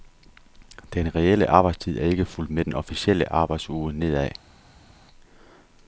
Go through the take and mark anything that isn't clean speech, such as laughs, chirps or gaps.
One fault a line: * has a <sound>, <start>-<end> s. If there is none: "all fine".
all fine